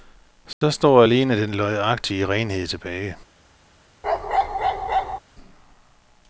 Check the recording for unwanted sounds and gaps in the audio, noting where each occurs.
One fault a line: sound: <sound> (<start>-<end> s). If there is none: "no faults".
sound: dropout (0.5-0.6 s)
sound: bark (4.0-5.2 s)